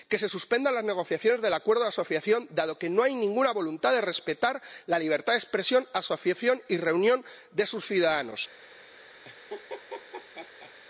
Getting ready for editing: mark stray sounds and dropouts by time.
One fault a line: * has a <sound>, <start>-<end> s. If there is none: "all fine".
* has a laugh, 9.2-10.7 s